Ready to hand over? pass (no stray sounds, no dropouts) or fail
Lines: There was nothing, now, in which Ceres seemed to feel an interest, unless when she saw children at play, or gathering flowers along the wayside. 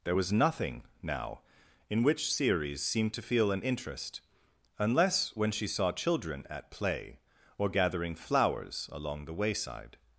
pass